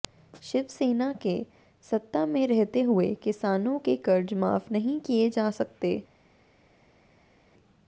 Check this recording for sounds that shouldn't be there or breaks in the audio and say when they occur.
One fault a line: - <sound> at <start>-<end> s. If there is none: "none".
none